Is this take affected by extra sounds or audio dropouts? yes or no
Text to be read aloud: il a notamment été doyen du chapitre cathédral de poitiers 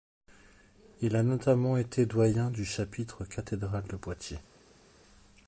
no